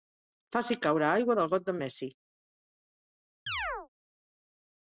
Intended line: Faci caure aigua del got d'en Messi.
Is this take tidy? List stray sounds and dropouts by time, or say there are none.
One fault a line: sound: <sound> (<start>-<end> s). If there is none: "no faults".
sound: chirp (3.5-3.9 s)